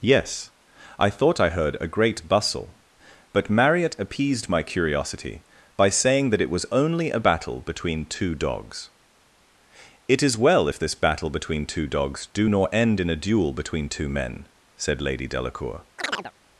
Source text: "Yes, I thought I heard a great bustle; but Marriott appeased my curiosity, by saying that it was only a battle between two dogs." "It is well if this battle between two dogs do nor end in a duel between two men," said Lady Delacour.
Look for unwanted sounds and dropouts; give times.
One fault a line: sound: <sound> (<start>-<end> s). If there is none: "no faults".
sound: chirp (16.0-16.3 s)